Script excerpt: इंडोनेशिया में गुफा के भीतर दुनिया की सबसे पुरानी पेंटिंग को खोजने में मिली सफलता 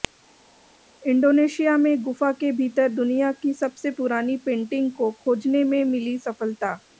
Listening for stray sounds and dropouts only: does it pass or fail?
pass